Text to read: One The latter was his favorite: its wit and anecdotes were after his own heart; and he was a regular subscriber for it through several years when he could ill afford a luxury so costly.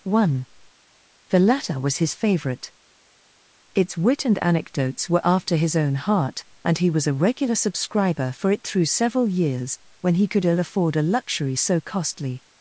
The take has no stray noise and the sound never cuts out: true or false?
true